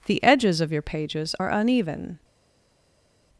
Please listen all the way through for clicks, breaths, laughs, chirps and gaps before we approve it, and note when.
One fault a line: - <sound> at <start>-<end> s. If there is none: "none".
none